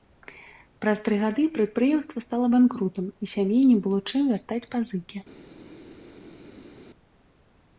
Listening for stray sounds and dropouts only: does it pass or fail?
pass